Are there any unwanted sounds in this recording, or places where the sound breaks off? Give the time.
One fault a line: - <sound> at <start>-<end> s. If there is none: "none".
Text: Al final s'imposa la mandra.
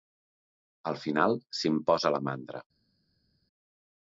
none